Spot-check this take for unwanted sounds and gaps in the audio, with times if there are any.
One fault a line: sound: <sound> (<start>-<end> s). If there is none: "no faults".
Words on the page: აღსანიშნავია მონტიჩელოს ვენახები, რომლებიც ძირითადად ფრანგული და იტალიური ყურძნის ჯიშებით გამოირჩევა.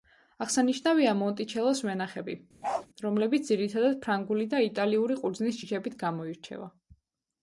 sound: bark (2.6-2.9 s)